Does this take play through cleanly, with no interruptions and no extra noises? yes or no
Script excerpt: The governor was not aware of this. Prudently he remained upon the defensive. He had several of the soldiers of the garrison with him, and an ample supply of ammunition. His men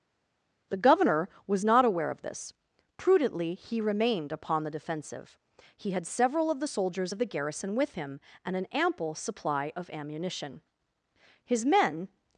yes